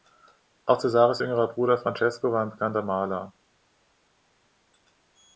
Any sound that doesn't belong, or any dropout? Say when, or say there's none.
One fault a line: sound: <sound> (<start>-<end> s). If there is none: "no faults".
no faults